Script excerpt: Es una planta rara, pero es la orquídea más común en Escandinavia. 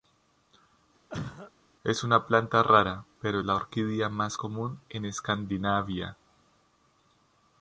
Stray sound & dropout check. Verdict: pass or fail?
fail